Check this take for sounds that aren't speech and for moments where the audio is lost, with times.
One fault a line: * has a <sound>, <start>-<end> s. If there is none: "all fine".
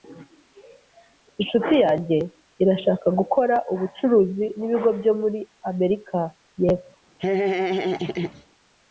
* has a laugh, 7.2-8.5 s